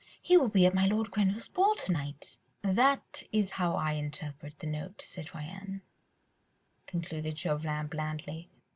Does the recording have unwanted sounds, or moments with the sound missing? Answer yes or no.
no